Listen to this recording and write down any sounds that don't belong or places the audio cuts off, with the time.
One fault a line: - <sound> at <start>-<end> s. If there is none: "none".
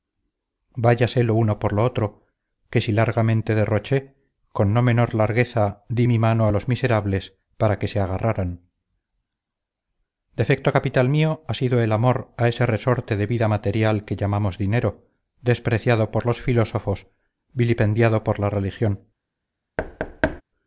- thud at 19.8-20.4 s